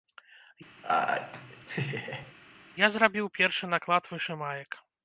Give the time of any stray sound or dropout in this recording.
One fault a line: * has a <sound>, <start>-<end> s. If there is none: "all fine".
* has a laugh, 0.8-2.3 s